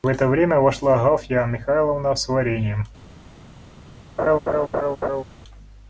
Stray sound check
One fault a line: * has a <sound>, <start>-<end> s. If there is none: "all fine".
* has a laugh, 4.2-5.2 s